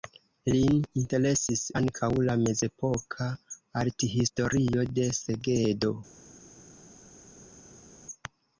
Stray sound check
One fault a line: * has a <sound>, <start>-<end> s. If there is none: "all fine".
all fine